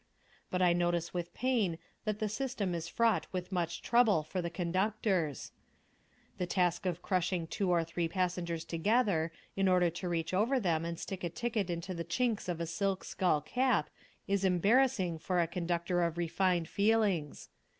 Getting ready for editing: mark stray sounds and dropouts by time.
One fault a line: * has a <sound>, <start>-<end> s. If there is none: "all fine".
all fine